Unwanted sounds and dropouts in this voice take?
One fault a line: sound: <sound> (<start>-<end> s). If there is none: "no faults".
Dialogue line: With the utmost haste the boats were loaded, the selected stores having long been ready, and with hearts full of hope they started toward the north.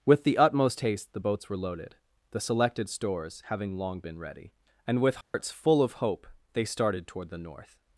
sound: dropout (5.2-5.3 s)